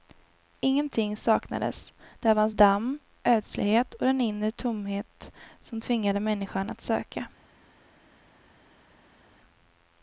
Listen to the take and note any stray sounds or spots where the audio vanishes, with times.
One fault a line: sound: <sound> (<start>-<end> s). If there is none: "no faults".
no faults